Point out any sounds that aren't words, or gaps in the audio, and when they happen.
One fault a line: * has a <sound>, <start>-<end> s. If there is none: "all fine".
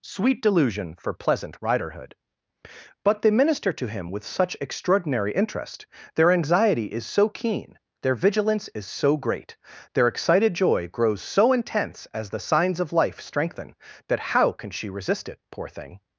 all fine